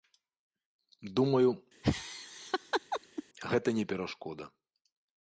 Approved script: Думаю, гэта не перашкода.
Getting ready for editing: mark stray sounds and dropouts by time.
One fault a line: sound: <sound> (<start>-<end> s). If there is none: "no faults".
sound: laugh (1.8-3.2 s)